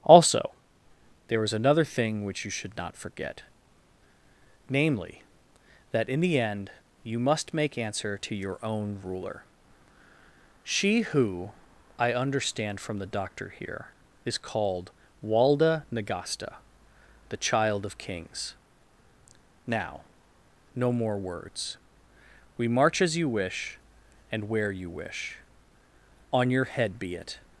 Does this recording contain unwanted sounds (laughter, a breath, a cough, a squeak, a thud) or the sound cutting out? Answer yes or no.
no